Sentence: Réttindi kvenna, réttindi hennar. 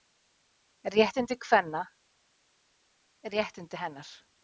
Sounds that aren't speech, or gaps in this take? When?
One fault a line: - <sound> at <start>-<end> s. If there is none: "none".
none